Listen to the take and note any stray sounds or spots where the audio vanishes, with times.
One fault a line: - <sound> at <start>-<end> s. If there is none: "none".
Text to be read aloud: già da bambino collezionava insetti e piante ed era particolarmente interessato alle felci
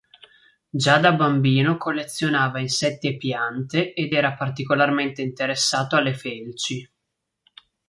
none